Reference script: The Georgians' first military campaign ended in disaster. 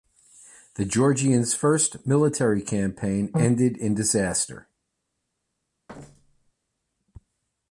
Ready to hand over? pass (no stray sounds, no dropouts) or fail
fail